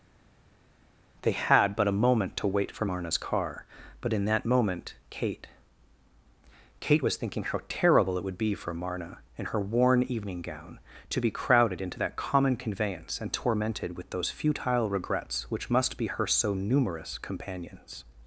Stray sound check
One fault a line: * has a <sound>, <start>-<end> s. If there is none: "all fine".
all fine